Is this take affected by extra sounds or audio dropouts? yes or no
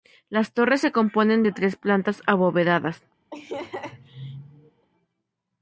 yes